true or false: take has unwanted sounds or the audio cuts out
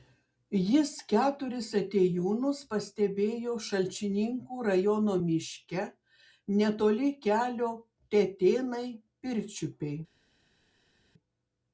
false